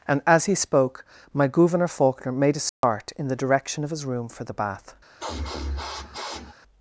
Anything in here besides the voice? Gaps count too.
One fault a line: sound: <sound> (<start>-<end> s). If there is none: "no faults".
sound: dropout (2.7-2.8 s)
sound: sniff (5.2-6.5 s)